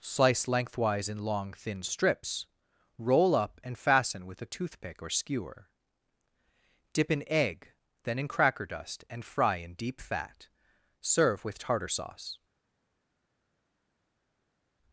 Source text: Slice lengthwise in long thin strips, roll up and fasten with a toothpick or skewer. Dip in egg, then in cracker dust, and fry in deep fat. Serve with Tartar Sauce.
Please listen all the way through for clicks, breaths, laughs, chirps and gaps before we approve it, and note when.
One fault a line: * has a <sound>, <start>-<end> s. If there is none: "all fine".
all fine